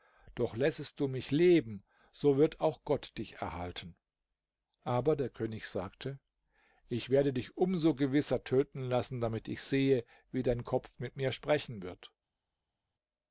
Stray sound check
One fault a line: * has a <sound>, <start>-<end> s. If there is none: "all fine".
all fine